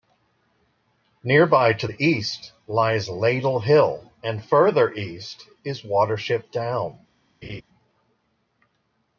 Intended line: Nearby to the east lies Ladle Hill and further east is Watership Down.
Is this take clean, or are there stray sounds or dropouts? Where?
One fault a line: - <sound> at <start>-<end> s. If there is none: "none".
- laugh at 7.4-7.6 s